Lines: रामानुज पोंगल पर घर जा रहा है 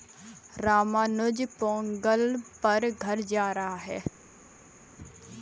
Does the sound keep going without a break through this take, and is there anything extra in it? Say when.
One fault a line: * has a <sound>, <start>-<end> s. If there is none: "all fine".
all fine